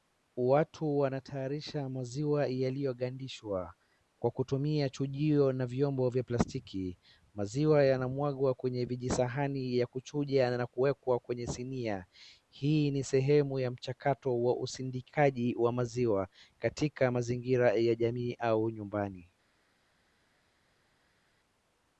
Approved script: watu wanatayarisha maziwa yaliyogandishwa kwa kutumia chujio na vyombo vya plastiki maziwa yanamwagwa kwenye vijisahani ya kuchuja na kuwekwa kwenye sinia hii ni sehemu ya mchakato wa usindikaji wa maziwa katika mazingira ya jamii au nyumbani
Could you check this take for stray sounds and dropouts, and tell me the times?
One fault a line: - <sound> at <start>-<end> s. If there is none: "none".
none